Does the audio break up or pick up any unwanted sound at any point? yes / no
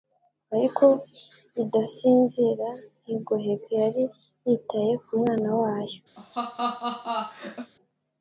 yes